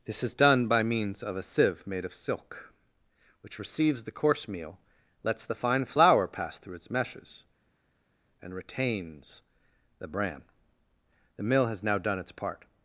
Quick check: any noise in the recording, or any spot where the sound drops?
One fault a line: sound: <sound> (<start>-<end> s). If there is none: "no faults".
no faults